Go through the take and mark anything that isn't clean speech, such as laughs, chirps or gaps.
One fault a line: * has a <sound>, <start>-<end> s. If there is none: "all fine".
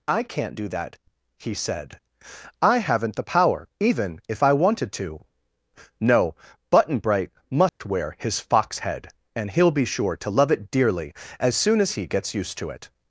* has a dropout, 7.7-7.8 s